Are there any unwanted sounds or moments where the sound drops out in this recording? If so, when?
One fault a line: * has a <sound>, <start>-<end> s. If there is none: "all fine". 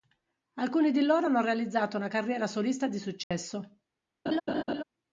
* has a dropout, 3.2-3.3 s
* has a laugh, 4.3-4.8 s